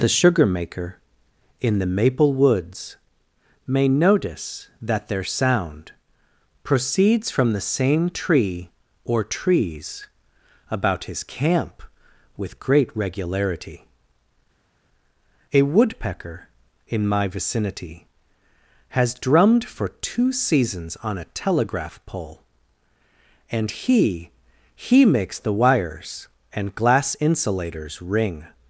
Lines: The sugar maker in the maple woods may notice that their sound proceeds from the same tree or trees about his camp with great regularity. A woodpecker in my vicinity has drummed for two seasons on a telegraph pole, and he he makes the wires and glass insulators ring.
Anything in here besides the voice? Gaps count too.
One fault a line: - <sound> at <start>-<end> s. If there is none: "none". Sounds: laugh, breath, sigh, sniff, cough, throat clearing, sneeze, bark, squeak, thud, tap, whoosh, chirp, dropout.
none